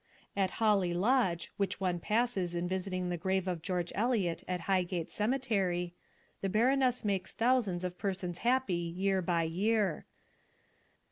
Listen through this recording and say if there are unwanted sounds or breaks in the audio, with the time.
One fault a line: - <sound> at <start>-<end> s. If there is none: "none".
none